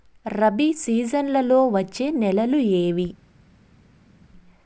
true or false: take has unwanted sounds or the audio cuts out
false